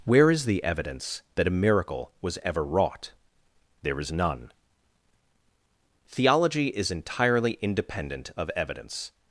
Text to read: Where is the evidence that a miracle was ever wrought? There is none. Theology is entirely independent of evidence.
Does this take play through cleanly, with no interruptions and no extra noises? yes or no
yes